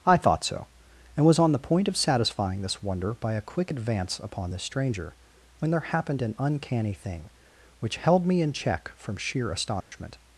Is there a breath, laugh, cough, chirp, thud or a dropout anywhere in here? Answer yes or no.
yes